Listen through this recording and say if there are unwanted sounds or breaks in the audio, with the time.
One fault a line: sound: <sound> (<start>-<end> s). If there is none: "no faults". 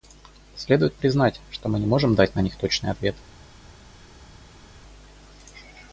no faults